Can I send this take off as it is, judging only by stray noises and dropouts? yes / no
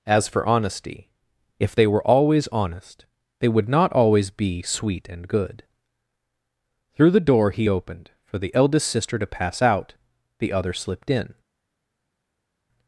yes